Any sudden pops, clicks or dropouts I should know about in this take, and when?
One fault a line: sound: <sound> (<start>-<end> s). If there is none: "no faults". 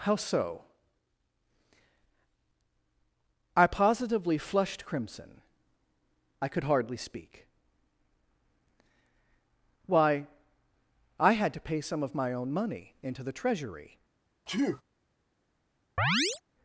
sound: sneeze (14.5-14.8 s)
sound: chirp (16.0-16.4 s)